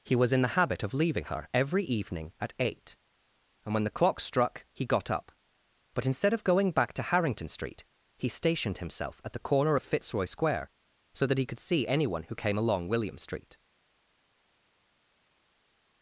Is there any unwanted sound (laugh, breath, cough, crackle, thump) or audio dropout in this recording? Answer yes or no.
no